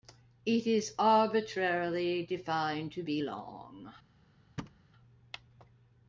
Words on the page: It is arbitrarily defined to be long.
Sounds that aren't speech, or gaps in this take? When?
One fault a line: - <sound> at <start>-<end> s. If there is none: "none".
- thud at 4.6-4.8 s